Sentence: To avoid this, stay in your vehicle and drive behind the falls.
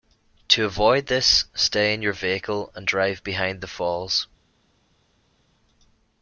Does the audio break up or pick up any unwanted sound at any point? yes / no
no